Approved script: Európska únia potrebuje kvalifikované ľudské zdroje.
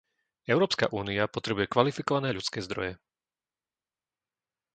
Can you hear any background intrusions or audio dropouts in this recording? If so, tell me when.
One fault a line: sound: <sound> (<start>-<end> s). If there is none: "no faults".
no faults